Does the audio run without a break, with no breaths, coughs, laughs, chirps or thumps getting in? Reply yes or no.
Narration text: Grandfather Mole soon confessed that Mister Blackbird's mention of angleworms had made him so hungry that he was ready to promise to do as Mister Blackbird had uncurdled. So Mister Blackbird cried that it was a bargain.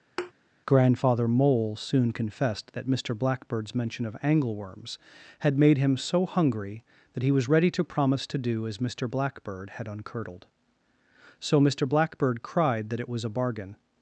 no